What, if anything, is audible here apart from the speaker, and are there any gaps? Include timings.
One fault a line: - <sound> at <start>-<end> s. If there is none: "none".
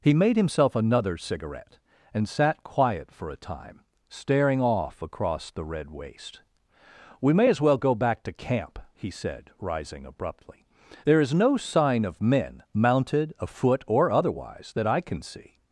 none